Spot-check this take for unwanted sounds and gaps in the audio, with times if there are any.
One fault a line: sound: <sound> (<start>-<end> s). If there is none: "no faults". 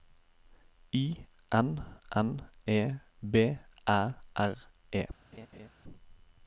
sound: laugh (5.3-5.7 s)